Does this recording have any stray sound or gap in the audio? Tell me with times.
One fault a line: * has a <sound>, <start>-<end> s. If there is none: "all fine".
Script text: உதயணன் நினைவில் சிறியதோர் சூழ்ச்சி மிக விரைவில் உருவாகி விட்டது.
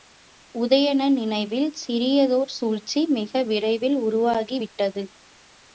all fine